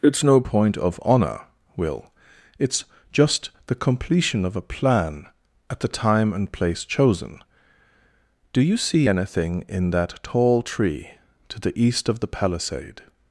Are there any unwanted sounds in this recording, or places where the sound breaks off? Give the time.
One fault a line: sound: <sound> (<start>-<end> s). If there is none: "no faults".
no faults